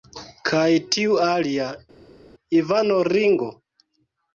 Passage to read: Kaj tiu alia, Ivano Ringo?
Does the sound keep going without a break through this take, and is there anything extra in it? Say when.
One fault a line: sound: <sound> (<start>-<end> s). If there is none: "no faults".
no faults